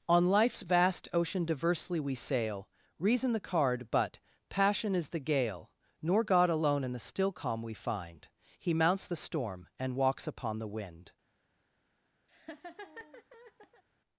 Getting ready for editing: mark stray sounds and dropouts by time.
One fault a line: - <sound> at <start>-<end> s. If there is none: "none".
- laugh at 12.3-13.8 s